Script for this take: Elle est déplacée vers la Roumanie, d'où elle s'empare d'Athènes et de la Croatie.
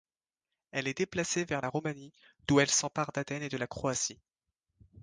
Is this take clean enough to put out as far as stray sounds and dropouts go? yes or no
yes